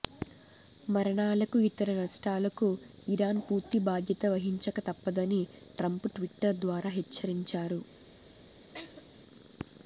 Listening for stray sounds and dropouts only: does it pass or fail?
fail